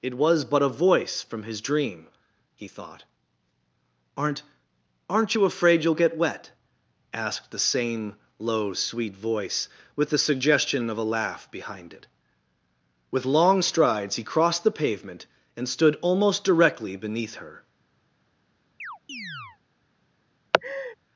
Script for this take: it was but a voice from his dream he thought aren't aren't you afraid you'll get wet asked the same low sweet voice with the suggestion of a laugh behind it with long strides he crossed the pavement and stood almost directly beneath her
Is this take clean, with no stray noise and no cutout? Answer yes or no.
no